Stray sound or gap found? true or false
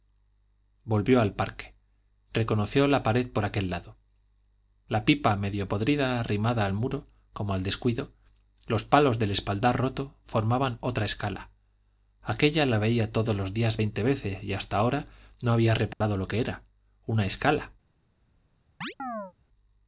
true